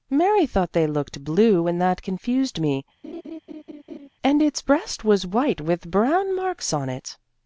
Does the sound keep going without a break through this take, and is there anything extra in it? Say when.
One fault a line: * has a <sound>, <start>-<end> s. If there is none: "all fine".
* has a laugh, 3.0-4.1 s